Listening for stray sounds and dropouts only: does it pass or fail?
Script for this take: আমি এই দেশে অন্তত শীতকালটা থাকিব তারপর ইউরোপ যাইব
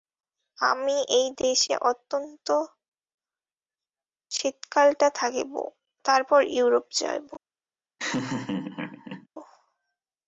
fail